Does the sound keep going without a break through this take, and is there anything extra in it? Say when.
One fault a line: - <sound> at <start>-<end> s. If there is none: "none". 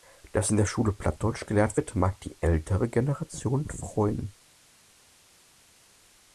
none